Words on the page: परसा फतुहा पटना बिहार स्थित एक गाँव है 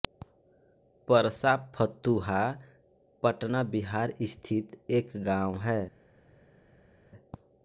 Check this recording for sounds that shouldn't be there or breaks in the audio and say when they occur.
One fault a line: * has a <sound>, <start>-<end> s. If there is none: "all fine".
all fine